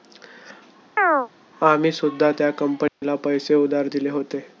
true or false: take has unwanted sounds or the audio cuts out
true